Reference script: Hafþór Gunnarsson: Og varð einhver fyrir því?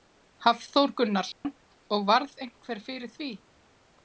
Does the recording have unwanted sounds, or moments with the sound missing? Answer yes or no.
yes